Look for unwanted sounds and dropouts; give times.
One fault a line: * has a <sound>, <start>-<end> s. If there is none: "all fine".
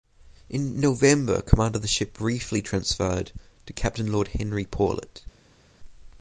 all fine